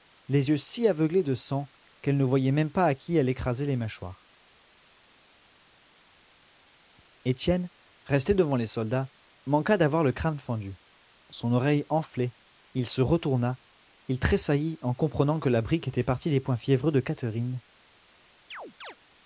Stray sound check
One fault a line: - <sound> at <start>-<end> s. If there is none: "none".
- chirp at 18.5-19.0 s